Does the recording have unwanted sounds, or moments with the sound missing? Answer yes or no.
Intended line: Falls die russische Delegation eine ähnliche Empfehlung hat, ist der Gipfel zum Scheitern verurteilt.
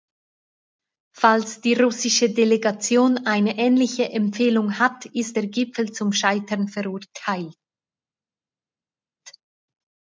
no